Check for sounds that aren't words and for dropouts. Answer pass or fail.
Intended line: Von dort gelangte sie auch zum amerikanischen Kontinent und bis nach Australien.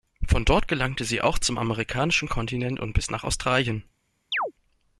fail